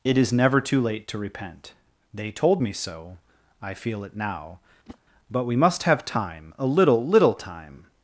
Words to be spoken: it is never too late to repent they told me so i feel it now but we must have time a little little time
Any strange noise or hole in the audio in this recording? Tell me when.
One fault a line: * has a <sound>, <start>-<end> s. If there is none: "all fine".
* has a whoosh, 4.9-5.0 s